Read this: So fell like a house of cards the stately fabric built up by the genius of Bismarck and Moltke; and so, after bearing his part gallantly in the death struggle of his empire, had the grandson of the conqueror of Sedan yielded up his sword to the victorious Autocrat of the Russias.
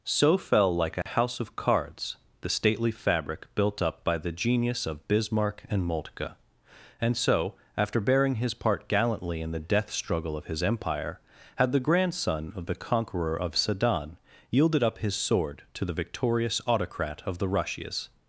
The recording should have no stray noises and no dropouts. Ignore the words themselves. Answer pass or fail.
fail